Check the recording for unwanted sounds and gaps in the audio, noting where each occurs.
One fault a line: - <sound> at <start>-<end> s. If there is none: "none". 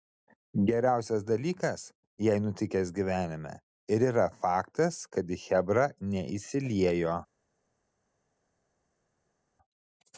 none